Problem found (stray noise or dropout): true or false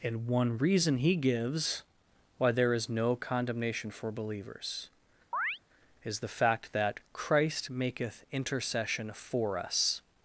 true